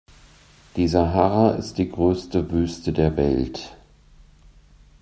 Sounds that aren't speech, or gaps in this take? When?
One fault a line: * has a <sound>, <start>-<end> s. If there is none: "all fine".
all fine